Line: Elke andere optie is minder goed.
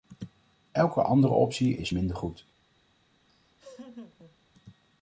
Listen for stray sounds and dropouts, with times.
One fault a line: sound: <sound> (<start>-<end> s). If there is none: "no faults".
sound: laugh (3.3-4.4 s)